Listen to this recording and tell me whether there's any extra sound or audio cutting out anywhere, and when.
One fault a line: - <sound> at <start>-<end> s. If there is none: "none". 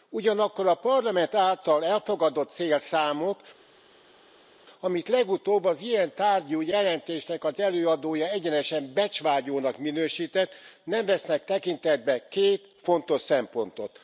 none